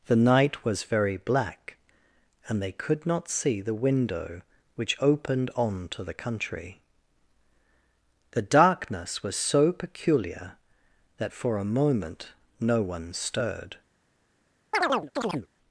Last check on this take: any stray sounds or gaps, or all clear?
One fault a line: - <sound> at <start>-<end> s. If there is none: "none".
- chirp at 14.7-15.5 s